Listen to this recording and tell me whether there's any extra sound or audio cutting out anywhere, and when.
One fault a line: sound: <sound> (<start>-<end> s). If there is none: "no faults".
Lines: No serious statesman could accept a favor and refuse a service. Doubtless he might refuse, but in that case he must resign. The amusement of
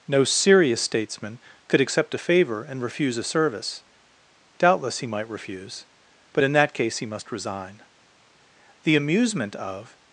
no faults